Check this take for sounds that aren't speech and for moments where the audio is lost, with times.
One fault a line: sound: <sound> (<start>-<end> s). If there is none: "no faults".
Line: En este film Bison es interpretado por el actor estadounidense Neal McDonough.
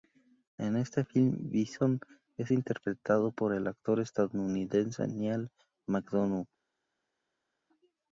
no faults